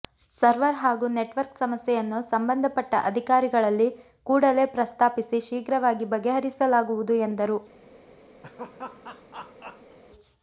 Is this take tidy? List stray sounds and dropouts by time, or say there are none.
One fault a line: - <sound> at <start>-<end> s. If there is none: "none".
- laugh at 8.4-10.0 s